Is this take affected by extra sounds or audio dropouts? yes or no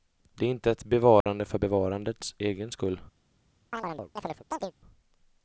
yes